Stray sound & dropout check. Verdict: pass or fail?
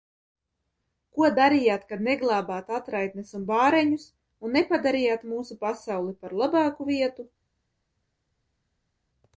pass